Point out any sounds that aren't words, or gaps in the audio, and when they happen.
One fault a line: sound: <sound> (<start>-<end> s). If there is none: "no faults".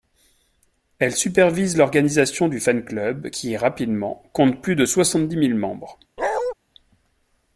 sound: bark (6.2-6.5 s)